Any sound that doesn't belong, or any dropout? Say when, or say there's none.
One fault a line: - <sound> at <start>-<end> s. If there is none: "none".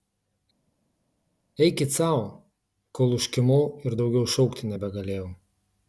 none